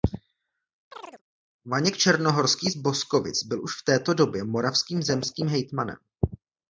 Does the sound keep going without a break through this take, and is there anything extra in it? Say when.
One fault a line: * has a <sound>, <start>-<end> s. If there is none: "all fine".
* has a chirp, 0.9-1.2 s